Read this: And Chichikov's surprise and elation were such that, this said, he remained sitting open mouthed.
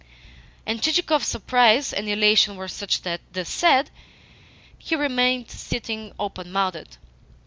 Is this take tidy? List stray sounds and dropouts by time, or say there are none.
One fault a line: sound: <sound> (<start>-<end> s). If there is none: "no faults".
no faults